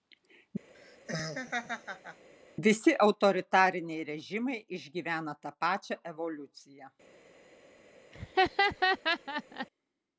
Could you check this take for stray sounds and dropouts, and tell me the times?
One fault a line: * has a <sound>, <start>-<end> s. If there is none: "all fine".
* has a laugh, 0.7-2.3 s
* has a laugh, 8.1-9.7 s